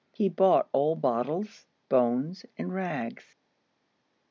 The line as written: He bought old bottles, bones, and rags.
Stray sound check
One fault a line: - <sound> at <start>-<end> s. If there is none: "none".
none